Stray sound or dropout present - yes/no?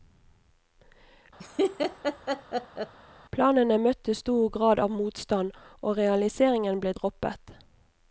yes